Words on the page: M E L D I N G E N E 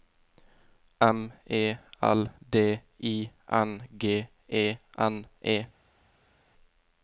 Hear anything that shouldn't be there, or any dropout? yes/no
no